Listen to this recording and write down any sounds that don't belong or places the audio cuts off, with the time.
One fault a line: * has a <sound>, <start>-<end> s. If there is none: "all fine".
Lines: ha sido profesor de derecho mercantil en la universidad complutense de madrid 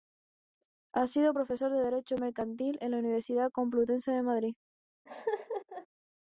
* has a laugh, 5.1-5.9 s